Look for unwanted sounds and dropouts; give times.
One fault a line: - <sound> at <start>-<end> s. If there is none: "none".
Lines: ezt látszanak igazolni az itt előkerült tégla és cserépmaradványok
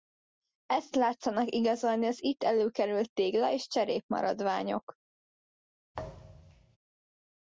- thud at 5.9-6.8 s